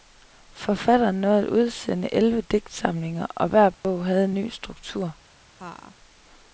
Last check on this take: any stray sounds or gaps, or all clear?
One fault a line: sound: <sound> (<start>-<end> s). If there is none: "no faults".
sound: dropout (3.7-3.8 s)
sound: laugh (5.6-6.0 s)